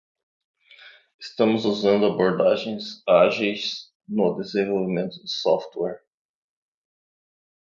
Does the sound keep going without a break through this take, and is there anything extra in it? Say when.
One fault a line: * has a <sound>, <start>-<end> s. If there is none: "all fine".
all fine